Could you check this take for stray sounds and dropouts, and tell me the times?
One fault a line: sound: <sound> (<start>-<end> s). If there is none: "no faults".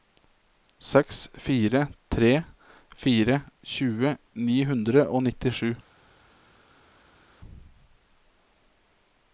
no faults